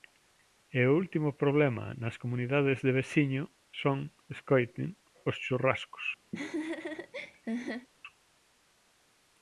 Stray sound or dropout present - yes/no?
yes